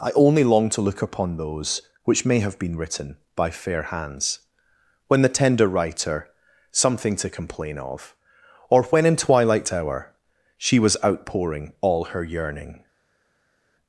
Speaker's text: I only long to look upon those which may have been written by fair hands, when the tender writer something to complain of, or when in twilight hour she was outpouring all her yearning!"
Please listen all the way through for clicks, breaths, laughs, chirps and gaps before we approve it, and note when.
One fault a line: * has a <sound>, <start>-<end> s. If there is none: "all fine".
all fine